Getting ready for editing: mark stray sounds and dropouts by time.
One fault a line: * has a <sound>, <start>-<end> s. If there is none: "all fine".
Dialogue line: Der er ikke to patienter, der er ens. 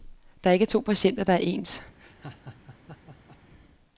* has a laugh, 2.0-3.4 s